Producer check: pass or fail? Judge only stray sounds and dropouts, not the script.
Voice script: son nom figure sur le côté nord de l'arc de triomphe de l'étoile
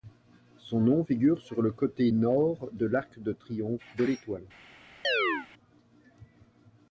fail